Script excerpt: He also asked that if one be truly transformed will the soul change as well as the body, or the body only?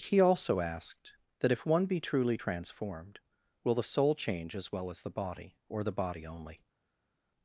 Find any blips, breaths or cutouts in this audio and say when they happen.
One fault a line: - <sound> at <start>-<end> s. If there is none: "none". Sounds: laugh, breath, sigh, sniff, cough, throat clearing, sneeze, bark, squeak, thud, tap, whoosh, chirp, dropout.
none